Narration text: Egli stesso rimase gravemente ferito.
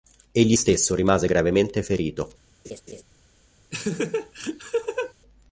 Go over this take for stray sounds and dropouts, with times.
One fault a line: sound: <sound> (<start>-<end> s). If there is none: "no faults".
sound: laugh (2.6-3.0 s)
sound: laugh (3.7-5.1 s)